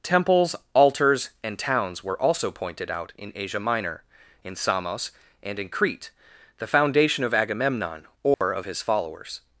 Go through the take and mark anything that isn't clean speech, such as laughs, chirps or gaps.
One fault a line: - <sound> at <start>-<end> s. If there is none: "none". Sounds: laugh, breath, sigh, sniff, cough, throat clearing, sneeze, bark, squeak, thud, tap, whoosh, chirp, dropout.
- dropout at 8.3-8.4 s